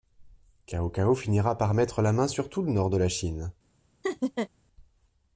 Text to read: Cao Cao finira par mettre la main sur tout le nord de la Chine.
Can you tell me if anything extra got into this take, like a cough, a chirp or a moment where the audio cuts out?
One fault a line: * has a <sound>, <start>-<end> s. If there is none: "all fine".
* has a laugh, 4.0-4.5 s